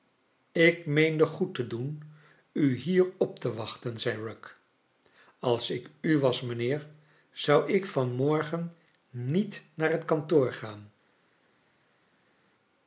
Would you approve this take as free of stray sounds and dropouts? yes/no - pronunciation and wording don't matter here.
yes